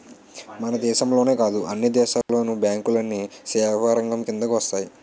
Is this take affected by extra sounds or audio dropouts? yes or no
yes